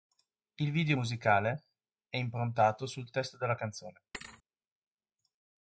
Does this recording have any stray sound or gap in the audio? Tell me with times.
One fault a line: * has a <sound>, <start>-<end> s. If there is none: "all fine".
* has a thud, 4.1-4.4 s